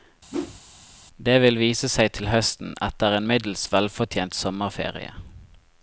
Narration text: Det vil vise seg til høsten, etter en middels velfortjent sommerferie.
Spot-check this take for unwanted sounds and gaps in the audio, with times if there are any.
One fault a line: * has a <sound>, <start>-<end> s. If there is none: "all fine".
* has a whoosh, 0.3-0.6 s